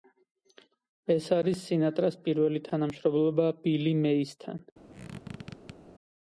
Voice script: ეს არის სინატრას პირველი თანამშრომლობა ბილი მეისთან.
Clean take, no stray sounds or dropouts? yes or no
no